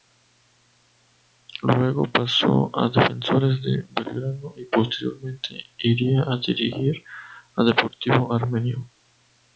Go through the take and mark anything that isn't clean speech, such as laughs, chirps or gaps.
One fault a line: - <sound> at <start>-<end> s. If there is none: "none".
none